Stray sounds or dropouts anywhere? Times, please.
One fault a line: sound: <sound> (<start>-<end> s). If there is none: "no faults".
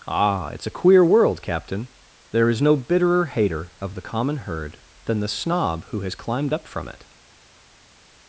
no faults